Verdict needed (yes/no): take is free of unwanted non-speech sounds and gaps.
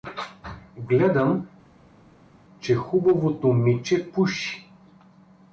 yes